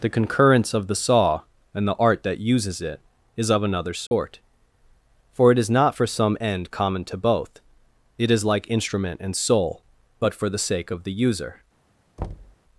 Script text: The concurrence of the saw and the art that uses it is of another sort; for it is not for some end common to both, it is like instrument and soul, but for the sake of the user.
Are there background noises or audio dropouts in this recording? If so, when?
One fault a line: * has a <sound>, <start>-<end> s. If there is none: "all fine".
* has a dropout, 4.1-4.1 s
* has a thud, 12.2-12.6 s